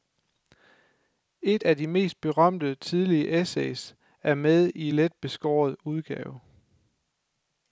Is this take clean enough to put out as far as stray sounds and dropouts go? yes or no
yes